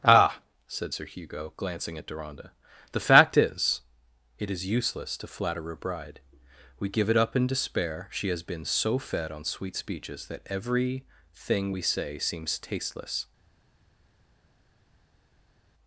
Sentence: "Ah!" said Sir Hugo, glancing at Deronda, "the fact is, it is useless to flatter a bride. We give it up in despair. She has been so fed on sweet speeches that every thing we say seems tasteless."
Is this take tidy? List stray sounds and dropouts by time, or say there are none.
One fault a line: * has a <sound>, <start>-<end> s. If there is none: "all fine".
all fine